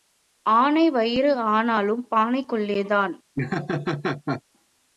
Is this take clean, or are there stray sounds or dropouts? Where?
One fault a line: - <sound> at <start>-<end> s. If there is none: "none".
- laugh at 3.4-4.4 s